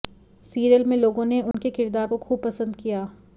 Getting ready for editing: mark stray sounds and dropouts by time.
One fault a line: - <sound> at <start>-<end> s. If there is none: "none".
- dropout at 1.5-1.5 s